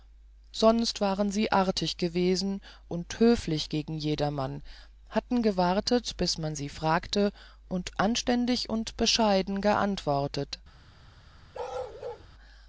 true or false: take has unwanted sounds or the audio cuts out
true